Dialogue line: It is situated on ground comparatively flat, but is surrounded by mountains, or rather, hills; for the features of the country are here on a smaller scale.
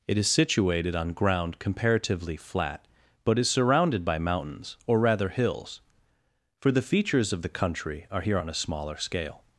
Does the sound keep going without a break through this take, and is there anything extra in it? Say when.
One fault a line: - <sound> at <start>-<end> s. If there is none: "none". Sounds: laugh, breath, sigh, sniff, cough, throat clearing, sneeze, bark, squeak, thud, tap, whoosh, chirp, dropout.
none